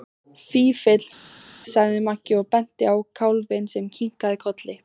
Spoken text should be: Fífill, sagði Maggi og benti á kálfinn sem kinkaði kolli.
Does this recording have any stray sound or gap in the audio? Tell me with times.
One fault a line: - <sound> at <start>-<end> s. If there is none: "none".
none